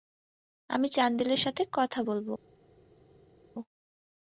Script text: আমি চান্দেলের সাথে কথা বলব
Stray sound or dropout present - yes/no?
no